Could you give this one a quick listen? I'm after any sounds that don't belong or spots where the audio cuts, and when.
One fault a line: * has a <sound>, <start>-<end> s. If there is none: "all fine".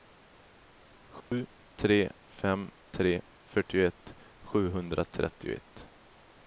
* has a dropout, 1.2-1.3 s